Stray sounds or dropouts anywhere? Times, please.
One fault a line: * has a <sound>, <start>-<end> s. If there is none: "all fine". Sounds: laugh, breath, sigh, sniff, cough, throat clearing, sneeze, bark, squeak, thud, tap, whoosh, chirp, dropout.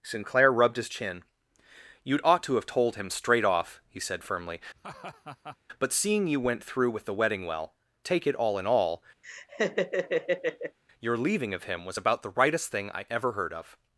* has a laugh, 4.7-5.6 s
* has a laugh, 9.2-10.8 s